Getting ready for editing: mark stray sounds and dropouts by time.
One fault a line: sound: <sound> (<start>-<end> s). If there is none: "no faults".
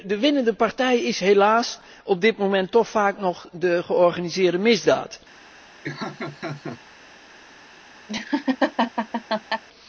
sound: laugh (5.8-6.8 s)
sound: laugh (8.1-9.6 s)